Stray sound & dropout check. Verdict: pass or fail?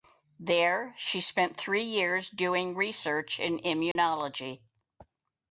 fail